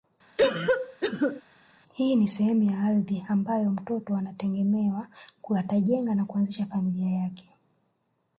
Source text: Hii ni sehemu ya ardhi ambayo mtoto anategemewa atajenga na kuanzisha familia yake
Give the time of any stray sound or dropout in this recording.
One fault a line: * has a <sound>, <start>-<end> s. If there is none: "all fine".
* has a cough, 0.4-1.4 s